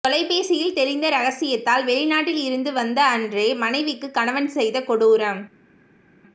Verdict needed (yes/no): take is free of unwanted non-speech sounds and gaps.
yes